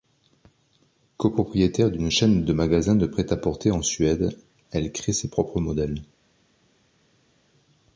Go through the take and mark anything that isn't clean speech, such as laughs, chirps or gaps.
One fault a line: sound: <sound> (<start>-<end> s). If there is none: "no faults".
no faults